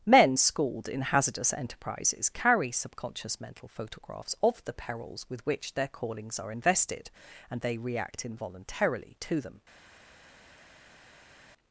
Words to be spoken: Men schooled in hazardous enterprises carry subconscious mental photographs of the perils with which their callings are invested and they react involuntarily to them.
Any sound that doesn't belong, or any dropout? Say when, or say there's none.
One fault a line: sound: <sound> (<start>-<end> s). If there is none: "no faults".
no faults